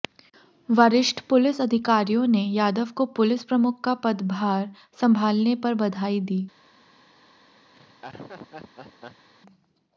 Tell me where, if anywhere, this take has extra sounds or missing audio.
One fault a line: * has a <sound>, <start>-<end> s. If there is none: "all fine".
* has a laugh, 7.7-9.3 s